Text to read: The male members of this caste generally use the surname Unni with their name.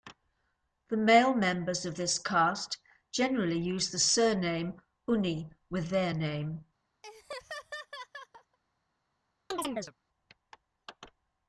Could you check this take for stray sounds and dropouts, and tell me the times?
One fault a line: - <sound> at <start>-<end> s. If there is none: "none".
- laugh at 7.0-8.6 s
- chirp at 9.5-9.9 s